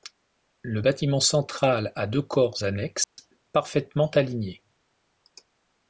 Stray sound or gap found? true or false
true